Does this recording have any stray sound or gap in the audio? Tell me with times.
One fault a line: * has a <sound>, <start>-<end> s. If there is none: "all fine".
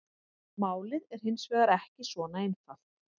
all fine